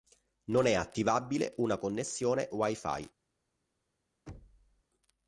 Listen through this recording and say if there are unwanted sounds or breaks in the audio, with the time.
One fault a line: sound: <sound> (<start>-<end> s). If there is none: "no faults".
sound: thud (4.3-4.8 s)